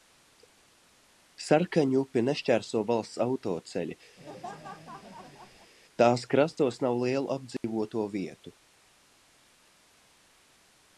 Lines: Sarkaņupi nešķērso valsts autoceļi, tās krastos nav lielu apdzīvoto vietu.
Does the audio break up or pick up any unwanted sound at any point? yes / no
yes